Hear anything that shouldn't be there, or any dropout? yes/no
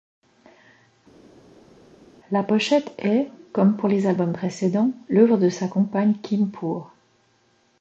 no